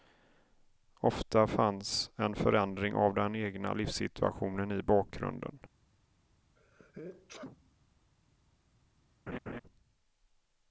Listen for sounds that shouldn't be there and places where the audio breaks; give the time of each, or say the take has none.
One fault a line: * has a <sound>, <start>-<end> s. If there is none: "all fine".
* has a sneeze, 6.6-7.9 s
* has a laugh, 9.3-9.6 s